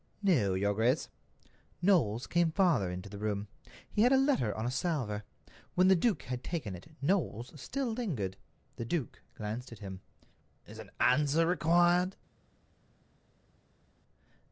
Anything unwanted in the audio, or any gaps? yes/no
no